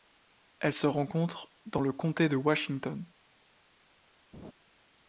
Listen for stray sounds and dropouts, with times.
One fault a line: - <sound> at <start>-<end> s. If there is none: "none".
- laugh at 4.3-4.5 s